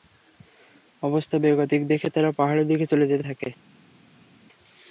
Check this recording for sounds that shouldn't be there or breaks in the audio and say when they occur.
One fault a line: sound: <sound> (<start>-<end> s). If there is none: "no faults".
no faults